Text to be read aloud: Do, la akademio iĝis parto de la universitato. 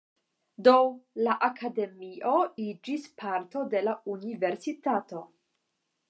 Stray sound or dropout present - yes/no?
no